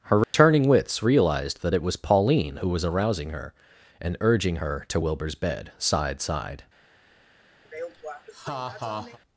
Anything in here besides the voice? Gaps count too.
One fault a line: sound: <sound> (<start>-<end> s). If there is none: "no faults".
sound: dropout (0.2-0.3 s)
sound: laugh (7.6-9.2 s)